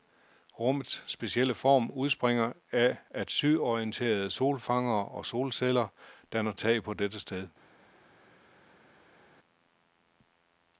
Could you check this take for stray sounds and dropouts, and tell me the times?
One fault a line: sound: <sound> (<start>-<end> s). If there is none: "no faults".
no faults